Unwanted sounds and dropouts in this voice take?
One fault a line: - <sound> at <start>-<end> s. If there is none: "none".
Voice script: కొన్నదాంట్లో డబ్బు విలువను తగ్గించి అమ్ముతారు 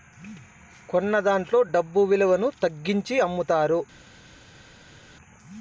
none